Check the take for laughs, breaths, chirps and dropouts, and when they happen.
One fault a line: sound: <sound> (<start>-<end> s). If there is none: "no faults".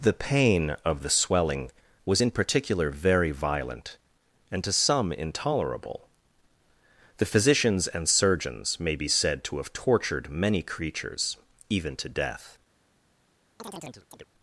sound: chirp (13.6-14.2 s)